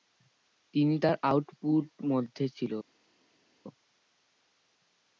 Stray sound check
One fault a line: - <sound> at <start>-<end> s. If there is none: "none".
none